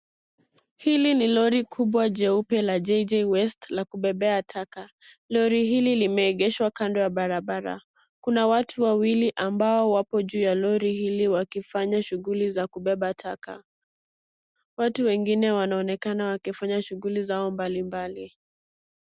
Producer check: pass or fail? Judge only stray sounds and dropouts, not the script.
pass